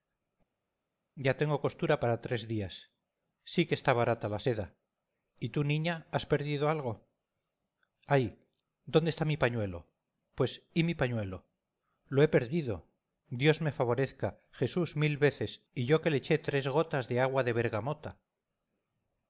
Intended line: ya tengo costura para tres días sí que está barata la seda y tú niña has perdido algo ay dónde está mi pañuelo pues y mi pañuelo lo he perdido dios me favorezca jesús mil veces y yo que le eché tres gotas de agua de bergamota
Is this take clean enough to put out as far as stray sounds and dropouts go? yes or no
yes